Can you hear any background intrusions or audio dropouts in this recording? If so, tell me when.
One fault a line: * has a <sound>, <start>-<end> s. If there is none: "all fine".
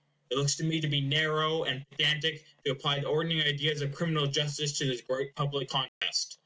* has a dropout, 5.9-6.0 s